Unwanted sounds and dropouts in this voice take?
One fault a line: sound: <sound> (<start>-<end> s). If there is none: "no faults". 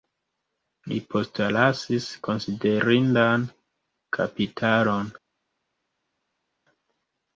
no faults